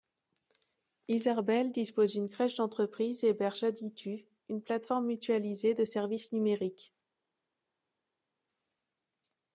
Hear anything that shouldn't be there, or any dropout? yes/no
no